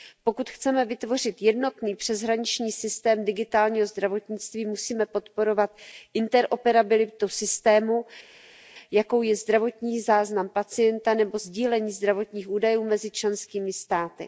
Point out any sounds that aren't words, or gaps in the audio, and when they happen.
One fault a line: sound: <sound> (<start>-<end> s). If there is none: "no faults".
no faults